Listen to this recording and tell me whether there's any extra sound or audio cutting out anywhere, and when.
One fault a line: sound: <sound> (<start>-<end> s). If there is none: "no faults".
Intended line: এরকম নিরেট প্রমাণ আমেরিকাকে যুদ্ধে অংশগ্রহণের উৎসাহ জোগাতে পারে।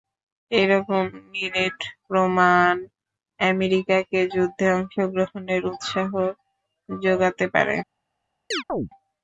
sound: chirp (8.5-8.9 s)